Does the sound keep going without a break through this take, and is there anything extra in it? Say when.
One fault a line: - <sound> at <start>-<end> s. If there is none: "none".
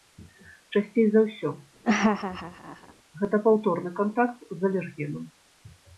- laugh at 1.8-2.9 s